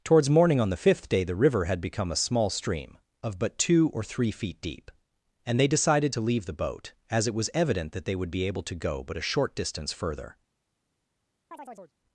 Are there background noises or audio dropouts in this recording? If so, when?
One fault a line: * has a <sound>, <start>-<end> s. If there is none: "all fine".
* has a chirp, 11.5-11.9 s